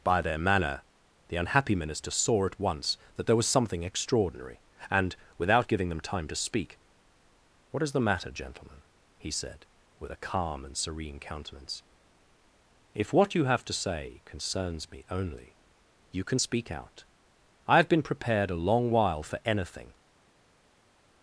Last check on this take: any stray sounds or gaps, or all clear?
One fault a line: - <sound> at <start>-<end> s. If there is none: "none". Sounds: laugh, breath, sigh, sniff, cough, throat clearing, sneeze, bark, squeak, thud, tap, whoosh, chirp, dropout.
none